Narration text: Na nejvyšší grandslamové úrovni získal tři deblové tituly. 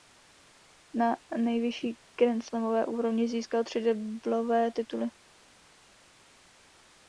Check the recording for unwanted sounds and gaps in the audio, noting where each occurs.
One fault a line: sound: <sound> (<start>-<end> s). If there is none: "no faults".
no faults